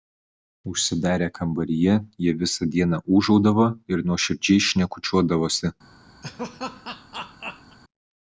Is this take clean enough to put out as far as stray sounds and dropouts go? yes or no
no